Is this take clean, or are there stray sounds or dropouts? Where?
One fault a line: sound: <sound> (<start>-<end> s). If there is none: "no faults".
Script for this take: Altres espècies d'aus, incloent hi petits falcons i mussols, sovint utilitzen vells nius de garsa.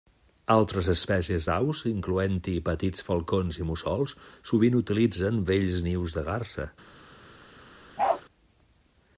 sound: bark (8.0-8.2 s)